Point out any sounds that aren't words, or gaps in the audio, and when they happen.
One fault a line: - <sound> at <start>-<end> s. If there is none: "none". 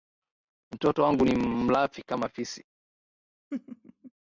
- laugh at 3.5-4.1 s